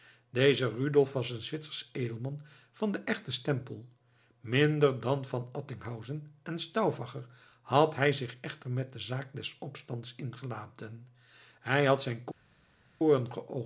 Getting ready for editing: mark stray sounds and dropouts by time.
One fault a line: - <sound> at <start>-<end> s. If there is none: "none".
none